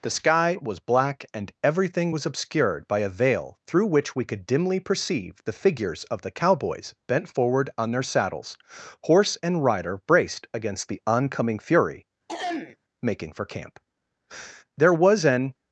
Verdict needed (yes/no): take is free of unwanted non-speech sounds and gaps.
no